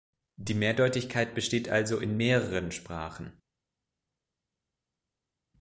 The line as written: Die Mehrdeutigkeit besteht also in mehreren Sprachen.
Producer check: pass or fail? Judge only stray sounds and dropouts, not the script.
pass